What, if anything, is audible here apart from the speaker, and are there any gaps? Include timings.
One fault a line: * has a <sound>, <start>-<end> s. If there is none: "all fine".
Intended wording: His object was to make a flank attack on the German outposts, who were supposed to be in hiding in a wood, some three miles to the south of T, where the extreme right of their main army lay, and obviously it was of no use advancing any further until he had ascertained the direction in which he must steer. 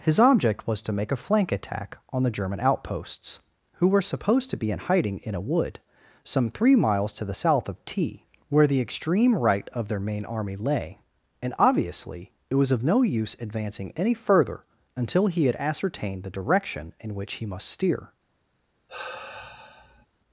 * has a sigh, 18.9-20.1 s